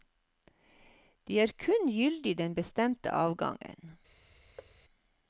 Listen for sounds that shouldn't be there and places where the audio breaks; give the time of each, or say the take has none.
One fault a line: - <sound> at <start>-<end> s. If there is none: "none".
- thud at 4.6-4.7 s